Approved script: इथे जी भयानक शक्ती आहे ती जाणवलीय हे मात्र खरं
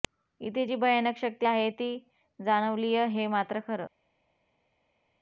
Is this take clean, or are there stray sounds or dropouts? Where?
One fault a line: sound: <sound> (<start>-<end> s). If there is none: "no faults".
no faults